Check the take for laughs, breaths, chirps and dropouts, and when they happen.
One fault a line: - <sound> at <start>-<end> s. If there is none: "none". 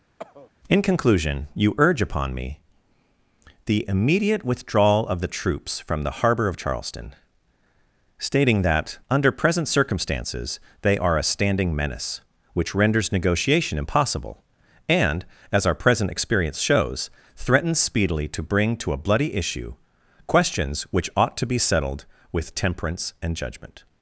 - cough at 0.2-0.5 s